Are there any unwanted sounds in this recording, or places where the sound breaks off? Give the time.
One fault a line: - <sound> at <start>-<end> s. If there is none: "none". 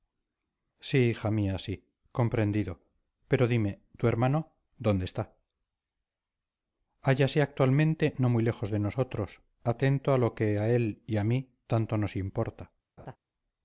- laugh at 13.0-13.2 s